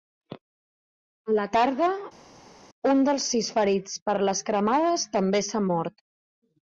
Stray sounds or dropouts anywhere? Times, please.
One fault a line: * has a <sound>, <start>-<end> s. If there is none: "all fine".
all fine